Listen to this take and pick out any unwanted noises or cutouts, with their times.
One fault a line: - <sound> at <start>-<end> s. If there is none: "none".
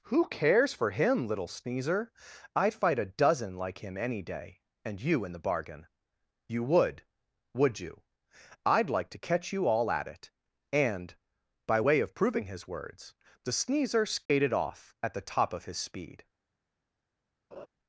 - dropout at 14.3-14.3 s
- laugh at 17.5-17.7 s